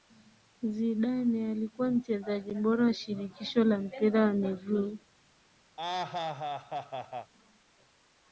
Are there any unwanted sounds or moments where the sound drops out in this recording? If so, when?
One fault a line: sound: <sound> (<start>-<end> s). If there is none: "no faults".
sound: laugh (5.8-7.3 s)